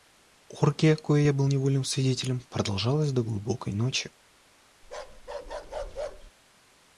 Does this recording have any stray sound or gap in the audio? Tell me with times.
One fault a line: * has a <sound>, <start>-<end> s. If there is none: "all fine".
* has a bark, 4.8-6.3 s